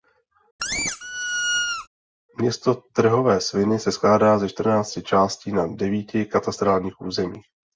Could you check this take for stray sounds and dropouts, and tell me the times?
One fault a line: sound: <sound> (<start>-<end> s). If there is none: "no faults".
sound: squeak (0.6-1.9 s)